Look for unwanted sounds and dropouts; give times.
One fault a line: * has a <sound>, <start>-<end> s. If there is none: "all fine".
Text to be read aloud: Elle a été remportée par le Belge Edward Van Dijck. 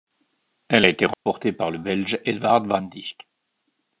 * has a dropout, 1.1-1.3 s